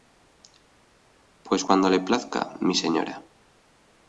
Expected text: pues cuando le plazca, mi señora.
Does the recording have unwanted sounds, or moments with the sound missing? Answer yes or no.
no